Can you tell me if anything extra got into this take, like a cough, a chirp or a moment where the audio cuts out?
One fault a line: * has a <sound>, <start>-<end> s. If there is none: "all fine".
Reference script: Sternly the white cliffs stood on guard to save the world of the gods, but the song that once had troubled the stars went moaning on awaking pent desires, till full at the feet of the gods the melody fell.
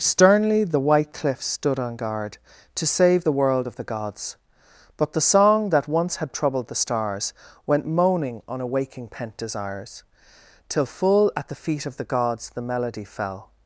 all fine